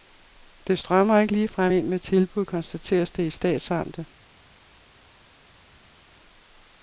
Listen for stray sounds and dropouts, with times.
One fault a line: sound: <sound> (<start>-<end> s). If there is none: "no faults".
no faults